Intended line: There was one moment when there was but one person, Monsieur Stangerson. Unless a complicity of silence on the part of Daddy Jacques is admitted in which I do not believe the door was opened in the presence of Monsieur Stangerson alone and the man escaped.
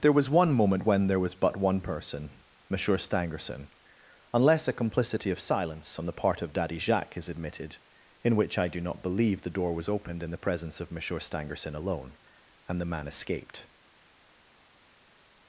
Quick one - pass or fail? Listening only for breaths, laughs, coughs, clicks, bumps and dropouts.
pass